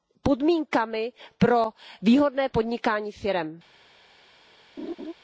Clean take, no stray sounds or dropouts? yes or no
no